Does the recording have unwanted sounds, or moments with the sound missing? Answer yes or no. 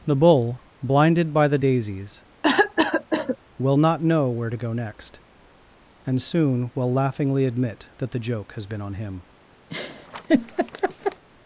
yes